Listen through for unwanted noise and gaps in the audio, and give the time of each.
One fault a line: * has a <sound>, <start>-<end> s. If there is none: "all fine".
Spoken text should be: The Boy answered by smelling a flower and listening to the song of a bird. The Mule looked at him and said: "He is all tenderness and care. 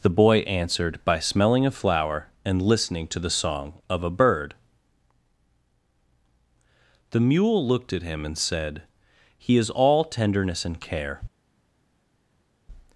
all fine